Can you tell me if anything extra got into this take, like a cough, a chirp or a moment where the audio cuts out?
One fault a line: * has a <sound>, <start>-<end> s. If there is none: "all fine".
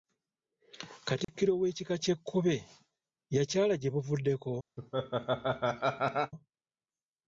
* has a dropout, 1.2-1.3 s
* has a laugh, 4.8-6.3 s